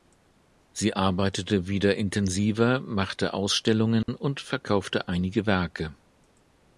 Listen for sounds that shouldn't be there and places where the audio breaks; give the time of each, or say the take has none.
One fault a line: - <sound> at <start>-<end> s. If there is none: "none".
- dropout at 4.0-4.1 s